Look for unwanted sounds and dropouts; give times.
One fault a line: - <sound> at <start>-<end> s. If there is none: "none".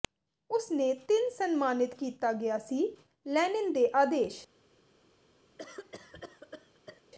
- cough at 5.6-7.0 s